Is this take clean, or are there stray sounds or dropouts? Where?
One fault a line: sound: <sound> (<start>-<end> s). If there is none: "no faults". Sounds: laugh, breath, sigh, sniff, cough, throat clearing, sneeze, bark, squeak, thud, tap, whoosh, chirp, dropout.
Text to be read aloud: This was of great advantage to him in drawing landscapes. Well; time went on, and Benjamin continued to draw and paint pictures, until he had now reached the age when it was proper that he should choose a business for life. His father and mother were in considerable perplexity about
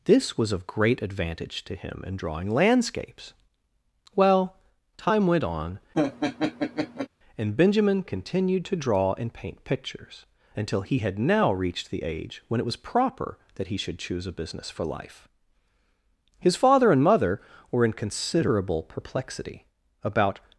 sound: laugh (5.9-7.1 s)